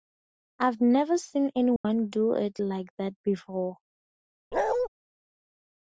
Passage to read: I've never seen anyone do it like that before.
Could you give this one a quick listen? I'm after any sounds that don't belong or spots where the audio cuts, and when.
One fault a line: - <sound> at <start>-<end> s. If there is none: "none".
- dropout at 1.8-1.8 s
- bark at 4.5-4.9 s